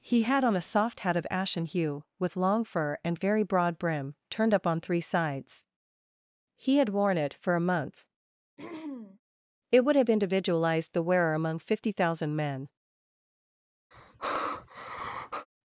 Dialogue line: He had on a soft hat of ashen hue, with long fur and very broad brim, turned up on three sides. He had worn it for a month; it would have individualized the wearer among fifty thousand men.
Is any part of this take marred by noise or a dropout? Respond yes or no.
yes